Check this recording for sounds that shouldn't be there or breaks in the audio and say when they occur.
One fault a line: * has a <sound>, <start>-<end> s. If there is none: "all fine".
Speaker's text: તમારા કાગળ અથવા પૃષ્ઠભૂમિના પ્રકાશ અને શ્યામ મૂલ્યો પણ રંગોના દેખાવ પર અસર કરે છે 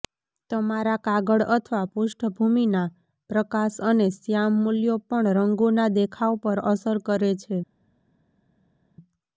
all fine